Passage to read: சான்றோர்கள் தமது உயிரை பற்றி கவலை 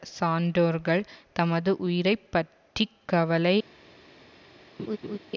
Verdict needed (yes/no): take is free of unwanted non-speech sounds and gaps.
no